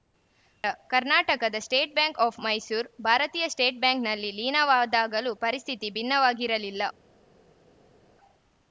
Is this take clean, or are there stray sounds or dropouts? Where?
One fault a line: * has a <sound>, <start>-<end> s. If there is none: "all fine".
all fine